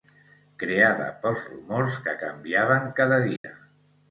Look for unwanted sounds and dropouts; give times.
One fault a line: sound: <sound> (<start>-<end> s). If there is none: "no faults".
sound: dropout (3.4-3.4 s)